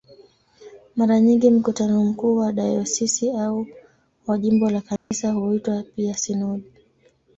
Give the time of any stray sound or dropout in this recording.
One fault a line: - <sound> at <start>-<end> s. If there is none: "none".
- dropout at 5.0-5.1 s